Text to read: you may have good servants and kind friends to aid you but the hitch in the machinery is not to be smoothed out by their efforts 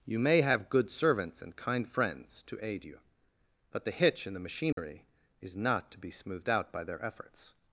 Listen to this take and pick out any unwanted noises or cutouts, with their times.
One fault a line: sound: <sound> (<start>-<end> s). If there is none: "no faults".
sound: dropout (4.7-4.8 s)